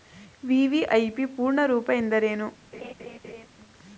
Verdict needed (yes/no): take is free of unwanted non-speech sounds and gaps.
no